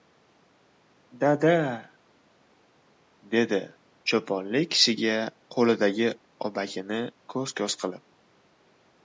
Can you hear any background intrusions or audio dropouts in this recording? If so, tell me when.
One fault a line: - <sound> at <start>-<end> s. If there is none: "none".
none